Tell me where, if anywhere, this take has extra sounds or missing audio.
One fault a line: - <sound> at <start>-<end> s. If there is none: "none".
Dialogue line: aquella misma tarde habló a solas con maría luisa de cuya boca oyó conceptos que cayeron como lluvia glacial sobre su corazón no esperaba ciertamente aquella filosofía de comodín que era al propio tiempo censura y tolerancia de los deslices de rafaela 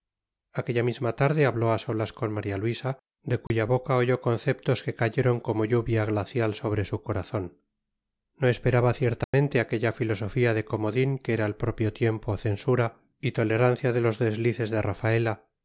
- dropout at 3.5-3.5 s
- dropout at 9.2-9.3 s